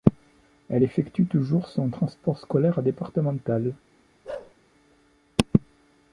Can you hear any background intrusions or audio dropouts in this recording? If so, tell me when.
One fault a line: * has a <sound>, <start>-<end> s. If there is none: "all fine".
* has a bark, 4.2-4.5 s